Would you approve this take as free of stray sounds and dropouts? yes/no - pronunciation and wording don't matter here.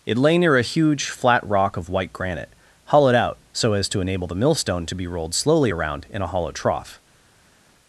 yes